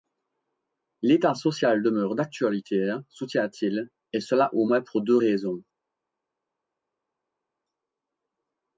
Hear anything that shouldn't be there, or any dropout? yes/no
no